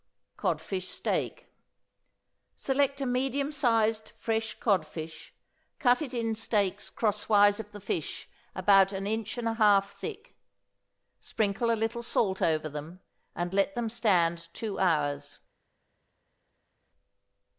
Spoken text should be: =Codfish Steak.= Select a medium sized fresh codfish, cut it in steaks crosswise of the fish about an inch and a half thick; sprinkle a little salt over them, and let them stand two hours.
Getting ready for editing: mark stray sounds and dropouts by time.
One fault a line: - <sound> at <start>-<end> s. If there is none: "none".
none